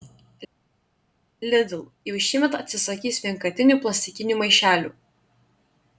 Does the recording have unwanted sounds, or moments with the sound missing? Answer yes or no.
no